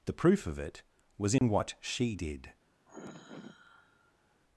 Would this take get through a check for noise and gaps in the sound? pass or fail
fail